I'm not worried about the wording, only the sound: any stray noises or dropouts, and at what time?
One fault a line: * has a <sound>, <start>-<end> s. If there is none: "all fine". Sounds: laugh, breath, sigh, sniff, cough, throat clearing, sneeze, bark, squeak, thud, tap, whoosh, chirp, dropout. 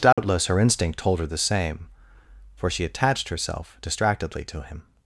* has a dropout, 0.1-0.2 s